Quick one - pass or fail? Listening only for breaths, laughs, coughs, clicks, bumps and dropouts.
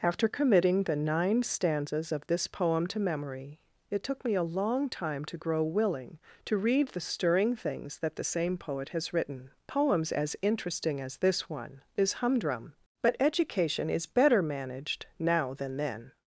pass